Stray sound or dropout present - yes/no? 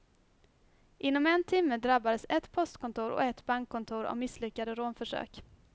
no